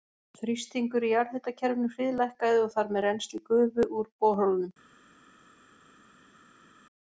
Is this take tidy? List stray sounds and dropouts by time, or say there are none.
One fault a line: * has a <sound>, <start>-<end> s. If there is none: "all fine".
all fine